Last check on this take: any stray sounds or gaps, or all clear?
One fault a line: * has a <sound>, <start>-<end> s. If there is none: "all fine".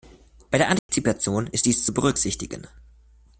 * has a dropout, 0.8-0.9 s